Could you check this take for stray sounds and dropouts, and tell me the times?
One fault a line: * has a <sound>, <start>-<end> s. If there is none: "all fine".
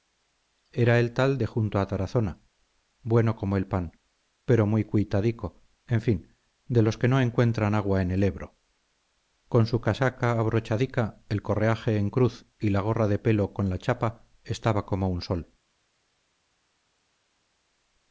all fine